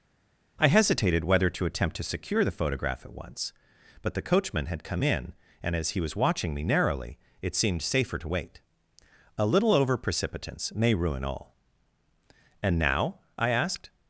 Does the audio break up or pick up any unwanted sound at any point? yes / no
no